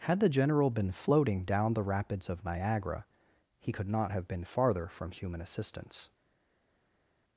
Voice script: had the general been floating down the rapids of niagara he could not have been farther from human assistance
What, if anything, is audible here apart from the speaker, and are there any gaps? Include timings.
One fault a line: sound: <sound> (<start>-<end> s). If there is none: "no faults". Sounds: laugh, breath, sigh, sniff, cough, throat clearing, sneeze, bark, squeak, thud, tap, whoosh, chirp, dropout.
no faults